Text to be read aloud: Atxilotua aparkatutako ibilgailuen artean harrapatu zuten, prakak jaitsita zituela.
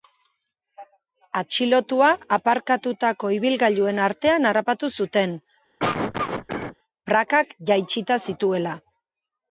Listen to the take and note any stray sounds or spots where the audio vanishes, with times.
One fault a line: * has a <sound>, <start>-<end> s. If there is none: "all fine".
* has a cough, 5.8-6.8 s